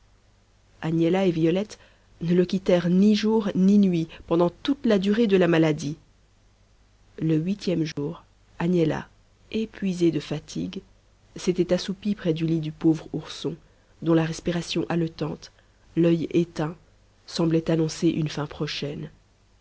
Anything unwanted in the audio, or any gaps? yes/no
yes